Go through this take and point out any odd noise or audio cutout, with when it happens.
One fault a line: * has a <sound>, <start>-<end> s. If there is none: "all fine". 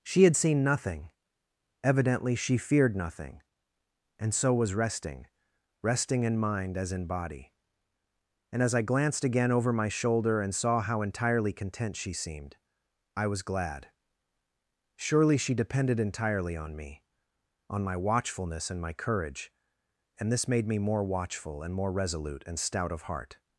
all fine